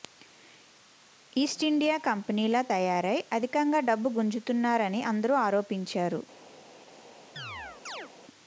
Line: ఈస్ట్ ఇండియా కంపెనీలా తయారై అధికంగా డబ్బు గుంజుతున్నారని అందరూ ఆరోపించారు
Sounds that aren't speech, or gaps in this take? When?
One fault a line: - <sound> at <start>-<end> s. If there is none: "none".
- chirp at 7.4-8.1 s